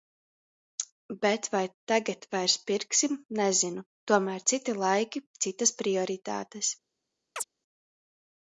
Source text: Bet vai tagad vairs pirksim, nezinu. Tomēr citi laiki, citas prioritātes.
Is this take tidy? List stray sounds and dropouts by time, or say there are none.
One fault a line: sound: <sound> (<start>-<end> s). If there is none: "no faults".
sound: chirp (7.4-7.4 s)